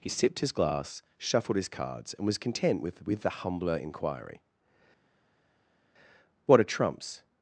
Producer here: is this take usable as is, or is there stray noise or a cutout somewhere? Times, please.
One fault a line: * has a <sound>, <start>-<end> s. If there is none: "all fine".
all fine